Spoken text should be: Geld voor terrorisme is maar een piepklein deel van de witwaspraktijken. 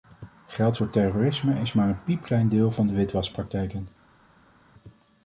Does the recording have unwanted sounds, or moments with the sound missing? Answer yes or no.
no